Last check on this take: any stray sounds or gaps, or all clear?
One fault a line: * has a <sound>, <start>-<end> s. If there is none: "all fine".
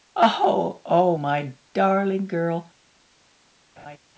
* has a laugh, 3.8-4.0 s